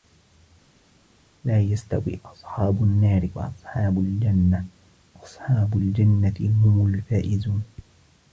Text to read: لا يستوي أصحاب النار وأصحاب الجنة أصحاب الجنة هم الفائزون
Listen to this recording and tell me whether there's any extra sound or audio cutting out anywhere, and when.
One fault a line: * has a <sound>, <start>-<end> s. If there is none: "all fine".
all fine